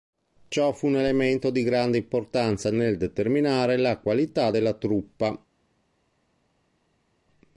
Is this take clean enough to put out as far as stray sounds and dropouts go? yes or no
yes